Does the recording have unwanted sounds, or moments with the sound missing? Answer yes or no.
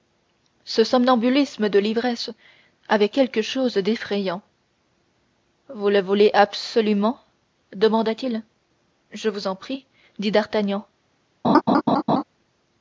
yes